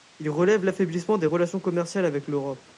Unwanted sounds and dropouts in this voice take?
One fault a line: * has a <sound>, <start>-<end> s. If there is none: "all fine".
all fine